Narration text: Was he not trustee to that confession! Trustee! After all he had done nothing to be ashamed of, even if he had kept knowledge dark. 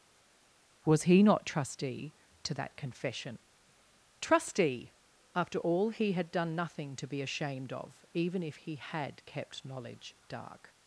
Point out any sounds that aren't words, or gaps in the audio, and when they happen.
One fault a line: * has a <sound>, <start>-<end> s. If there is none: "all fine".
all fine